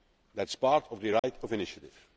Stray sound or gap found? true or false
true